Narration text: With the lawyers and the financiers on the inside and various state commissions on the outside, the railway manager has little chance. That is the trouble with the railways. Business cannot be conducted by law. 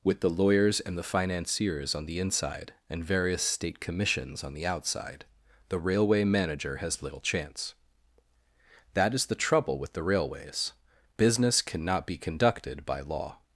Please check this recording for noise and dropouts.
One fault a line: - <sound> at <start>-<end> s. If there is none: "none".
none